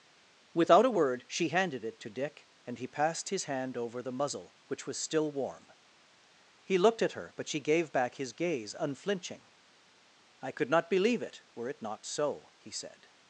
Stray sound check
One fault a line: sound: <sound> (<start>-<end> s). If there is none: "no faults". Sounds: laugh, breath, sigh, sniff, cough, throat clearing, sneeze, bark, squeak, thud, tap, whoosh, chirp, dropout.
no faults